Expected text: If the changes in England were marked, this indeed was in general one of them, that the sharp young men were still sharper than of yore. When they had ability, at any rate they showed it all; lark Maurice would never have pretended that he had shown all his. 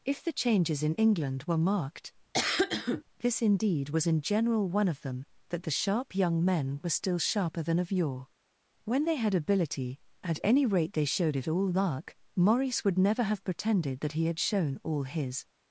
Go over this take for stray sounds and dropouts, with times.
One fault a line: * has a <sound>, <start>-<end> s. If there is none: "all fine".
* has a cough, 2.3-3.0 s